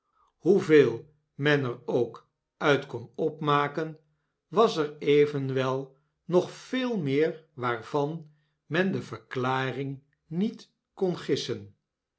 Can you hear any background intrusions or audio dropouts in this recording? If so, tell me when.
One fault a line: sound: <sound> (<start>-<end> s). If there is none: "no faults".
no faults